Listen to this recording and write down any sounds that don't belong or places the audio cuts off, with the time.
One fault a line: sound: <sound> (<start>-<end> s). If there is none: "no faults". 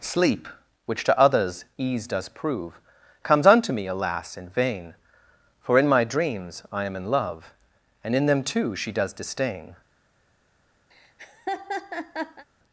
sound: laugh (10.9-12.5 s)